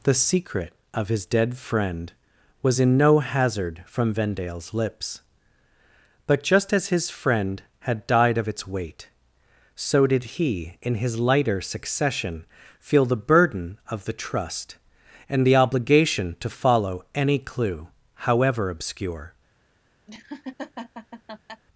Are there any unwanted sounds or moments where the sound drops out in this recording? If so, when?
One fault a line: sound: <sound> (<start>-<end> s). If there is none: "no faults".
sound: laugh (20.1-21.6 s)